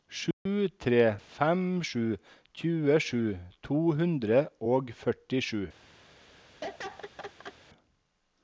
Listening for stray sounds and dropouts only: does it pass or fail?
fail